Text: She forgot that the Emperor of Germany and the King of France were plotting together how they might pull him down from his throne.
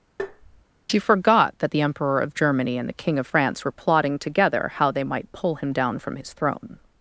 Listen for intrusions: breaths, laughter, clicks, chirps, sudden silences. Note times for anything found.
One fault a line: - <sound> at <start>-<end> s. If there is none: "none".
- tap at 0.2-0.7 s